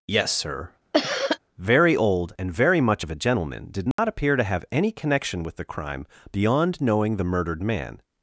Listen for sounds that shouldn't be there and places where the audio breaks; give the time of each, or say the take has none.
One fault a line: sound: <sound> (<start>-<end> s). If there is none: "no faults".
sound: cough (0.9-1.4 s)
sound: dropout (3.9-4.0 s)